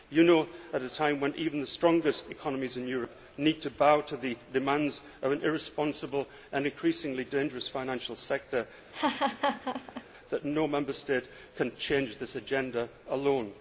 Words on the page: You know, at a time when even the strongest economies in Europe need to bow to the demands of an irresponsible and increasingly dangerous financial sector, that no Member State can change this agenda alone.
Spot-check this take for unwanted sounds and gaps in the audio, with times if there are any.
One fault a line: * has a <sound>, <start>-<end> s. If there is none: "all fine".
* has a laugh, 8.9-10.0 s